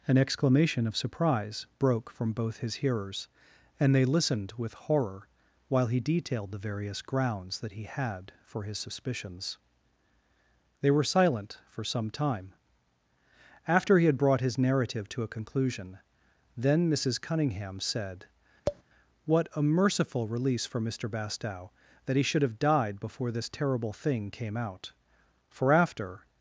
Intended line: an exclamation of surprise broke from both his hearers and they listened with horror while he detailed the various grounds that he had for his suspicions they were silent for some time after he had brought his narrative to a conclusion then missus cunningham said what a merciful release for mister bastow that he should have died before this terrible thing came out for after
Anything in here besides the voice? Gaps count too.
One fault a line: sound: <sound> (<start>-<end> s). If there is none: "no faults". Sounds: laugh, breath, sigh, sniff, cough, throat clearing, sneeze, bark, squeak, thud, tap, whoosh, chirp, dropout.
sound: tap (18.7-18.8 s)